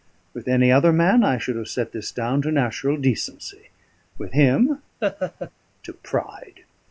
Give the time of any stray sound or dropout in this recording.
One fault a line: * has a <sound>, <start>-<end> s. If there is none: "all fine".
* has a laugh, 5.0-5.5 s